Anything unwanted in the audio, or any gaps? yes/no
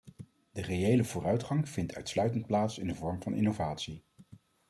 no